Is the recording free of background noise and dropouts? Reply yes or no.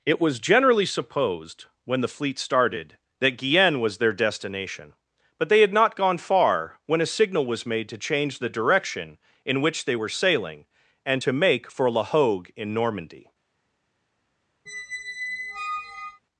no